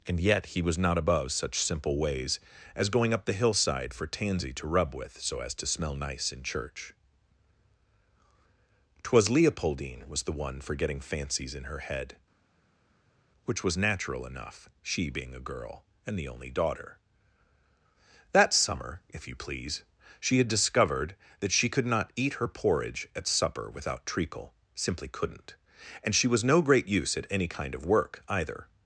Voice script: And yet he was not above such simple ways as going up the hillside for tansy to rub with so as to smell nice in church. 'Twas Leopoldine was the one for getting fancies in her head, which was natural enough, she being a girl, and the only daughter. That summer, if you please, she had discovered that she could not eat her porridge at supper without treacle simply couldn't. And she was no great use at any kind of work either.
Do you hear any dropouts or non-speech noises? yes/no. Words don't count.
no